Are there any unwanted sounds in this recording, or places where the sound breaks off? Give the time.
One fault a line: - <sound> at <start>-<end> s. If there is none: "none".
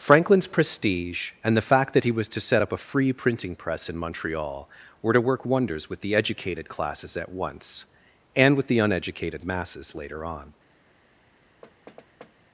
- thud at 11.6-12.3 s